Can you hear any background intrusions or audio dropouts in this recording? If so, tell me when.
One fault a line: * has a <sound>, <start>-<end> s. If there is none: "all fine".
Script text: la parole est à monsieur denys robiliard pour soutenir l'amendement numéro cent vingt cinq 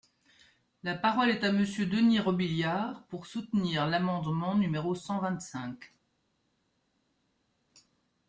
all fine